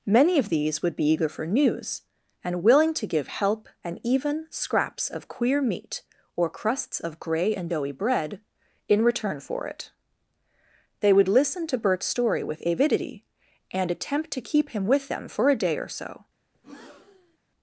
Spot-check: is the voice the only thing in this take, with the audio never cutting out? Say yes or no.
no